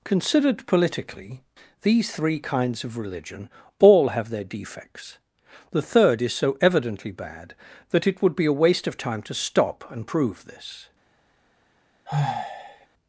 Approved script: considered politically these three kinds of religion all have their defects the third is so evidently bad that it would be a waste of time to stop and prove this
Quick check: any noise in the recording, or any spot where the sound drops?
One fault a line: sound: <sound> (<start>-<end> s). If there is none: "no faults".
sound: sigh (12.1-12.9 s)